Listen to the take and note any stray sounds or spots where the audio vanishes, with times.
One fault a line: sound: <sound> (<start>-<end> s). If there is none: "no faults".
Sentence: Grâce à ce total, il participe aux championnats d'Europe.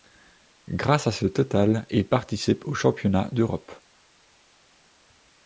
no faults